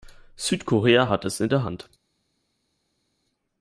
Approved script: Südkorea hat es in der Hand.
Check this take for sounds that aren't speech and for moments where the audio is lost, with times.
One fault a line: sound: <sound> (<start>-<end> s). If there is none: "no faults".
no faults